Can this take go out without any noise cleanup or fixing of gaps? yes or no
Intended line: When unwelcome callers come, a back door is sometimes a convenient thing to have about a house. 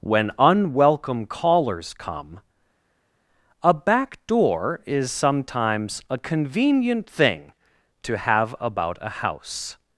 yes